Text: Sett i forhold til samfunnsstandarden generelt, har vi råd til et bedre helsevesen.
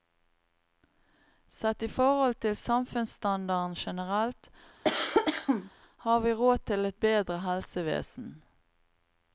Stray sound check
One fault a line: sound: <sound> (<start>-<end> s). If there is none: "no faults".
sound: cough (4.8-5.7 s)